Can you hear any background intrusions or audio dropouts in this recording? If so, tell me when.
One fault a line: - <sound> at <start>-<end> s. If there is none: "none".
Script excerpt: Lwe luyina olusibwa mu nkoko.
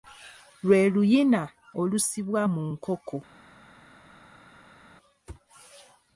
none